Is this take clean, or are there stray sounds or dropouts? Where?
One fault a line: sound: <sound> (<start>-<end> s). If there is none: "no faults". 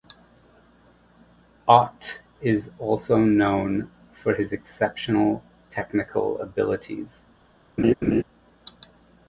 sound: laugh (7.8-8.2 s)